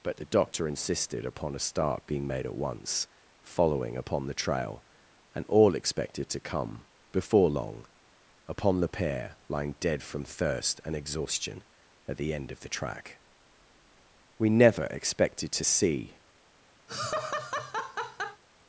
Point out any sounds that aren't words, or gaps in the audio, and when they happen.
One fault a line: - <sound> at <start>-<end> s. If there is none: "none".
- laugh at 16.9-18.4 s